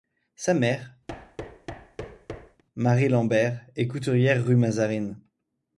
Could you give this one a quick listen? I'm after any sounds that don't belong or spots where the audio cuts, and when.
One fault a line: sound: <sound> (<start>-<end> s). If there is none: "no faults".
sound: thud (1.1-2.6 s)